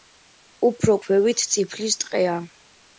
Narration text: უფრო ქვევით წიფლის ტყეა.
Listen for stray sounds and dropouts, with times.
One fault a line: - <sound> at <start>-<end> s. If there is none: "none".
none